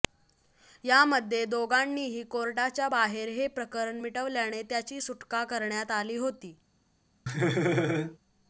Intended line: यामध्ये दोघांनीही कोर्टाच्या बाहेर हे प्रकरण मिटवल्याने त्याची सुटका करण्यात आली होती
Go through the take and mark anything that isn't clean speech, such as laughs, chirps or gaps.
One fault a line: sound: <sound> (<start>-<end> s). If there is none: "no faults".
sound: laugh (7.3-8.2 s)